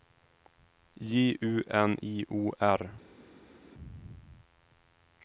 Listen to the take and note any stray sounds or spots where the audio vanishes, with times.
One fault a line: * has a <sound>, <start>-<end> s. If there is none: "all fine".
all fine